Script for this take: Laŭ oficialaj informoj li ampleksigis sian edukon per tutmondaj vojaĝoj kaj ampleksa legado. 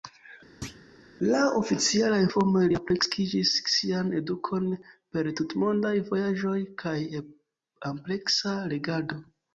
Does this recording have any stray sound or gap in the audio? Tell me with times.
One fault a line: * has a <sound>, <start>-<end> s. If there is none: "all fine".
* has a thud, 0.6-0.9 s